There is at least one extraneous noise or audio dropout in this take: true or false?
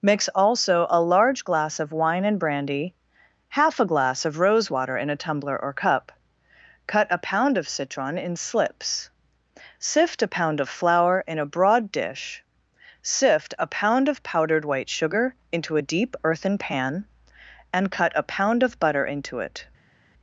false